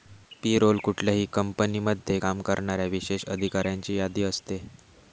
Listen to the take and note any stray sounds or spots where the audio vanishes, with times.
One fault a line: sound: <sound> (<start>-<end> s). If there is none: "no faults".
no faults